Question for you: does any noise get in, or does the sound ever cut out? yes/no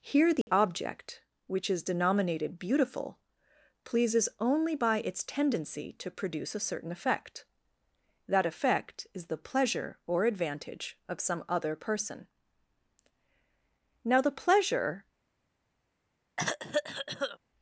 yes